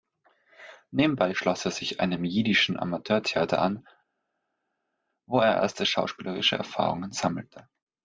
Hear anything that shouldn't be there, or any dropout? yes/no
no